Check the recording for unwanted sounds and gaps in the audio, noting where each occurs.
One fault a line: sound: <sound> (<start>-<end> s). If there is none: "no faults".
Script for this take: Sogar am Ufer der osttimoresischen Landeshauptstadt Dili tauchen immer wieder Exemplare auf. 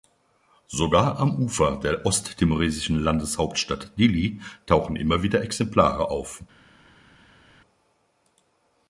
no faults